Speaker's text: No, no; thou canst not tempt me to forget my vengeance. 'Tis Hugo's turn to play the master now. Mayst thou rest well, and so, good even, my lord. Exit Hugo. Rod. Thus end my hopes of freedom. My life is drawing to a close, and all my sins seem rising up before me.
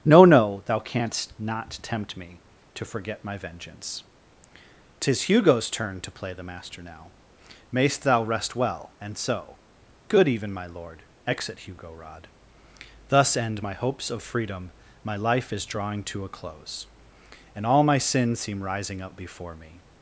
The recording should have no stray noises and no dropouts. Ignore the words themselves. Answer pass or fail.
pass